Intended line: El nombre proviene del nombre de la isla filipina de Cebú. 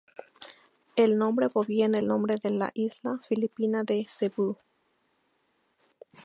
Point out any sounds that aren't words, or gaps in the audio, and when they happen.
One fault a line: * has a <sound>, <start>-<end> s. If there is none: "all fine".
all fine